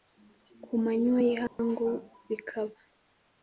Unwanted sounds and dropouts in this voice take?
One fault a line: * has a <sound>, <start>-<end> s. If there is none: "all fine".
* has a dropout, 1.5-1.6 s